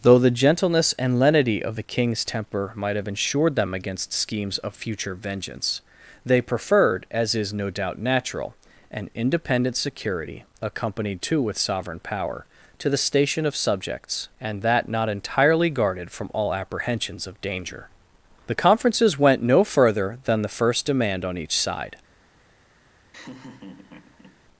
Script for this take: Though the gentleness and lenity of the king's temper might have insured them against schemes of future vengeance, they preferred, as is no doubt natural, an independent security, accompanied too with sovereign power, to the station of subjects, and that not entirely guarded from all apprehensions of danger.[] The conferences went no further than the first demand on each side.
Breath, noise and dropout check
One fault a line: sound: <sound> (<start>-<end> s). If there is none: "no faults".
sound: laugh (23.1-24.4 s)